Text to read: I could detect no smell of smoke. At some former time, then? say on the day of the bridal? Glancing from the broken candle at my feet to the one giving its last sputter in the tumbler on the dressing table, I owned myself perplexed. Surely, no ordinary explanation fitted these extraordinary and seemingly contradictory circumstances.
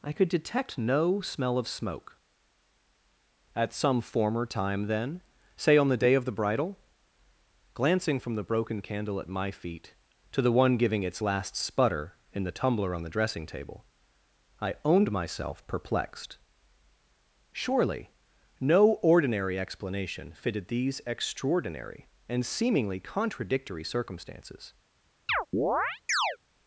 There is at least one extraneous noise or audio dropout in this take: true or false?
true